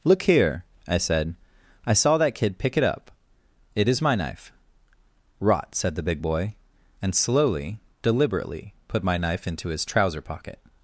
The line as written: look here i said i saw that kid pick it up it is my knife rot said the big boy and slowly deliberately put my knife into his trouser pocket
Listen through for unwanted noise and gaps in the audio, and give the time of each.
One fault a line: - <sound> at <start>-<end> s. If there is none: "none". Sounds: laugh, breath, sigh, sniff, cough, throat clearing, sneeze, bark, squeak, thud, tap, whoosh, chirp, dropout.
none